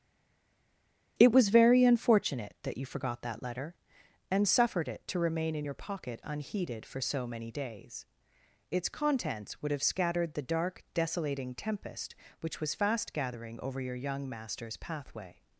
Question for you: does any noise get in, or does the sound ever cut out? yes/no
no